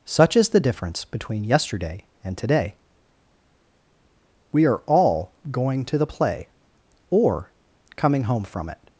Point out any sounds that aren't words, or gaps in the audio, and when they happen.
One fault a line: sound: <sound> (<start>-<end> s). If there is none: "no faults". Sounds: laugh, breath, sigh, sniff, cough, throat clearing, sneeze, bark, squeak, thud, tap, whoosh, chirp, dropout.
no faults